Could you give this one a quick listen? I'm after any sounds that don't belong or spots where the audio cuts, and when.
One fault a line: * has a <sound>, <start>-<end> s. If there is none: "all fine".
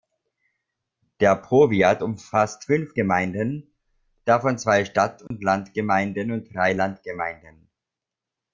* has a dropout, 5.3-5.3 s